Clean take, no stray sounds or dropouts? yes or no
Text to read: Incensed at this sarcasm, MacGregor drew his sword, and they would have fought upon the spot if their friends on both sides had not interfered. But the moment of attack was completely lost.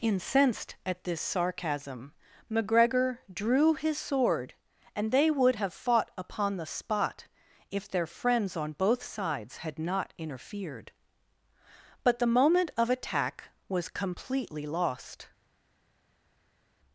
yes